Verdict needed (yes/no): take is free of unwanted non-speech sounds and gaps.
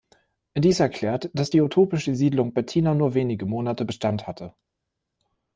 yes